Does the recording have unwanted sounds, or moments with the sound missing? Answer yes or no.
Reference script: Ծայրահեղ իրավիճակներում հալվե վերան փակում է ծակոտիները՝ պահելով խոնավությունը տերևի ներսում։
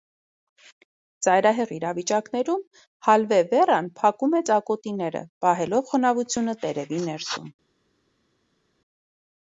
no